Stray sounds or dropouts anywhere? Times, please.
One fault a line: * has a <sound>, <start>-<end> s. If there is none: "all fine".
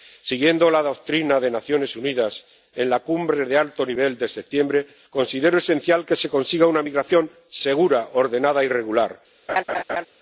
* has a laugh, 9.5-10.1 s